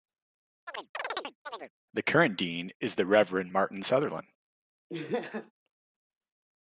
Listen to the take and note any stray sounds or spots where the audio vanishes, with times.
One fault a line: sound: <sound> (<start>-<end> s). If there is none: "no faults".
sound: chirp (0.7-1.7 s)
sound: laugh (4.9-5.5 s)